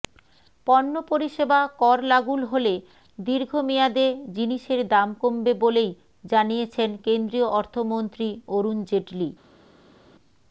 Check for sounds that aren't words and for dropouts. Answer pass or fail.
pass